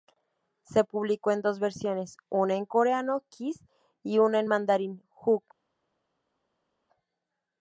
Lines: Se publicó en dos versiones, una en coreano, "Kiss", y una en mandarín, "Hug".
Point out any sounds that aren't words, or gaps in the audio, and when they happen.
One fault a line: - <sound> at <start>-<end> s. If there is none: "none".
none